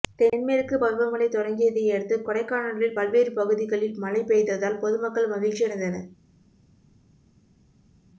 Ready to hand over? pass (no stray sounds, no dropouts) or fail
pass